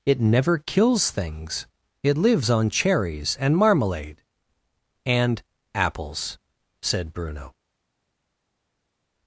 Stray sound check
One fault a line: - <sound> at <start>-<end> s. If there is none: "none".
none